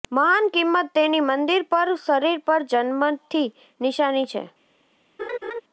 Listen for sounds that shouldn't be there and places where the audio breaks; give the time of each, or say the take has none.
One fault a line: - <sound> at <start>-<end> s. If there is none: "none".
- laugh at 5.2-5.6 s